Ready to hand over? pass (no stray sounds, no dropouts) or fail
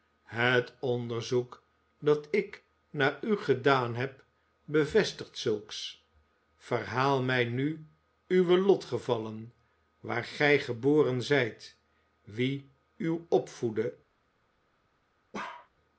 fail